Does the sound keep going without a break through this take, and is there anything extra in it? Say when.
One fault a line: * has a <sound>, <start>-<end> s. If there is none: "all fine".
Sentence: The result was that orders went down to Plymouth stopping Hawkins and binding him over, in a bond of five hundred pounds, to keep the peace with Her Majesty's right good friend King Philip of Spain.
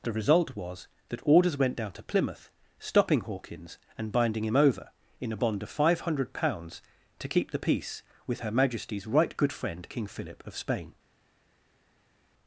all fine